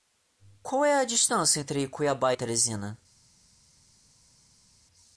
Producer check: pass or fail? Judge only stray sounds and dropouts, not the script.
pass